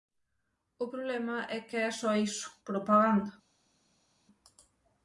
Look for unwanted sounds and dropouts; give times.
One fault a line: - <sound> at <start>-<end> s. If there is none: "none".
none